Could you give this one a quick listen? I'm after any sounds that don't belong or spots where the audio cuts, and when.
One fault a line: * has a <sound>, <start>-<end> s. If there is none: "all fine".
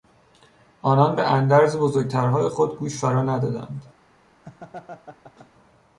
* has a laugh, 4.4-5.5 s